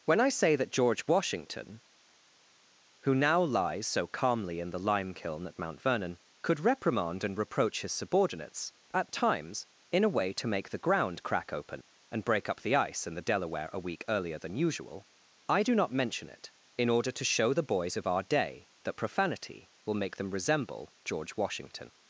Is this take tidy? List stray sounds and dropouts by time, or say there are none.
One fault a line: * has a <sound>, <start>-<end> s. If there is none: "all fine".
all fine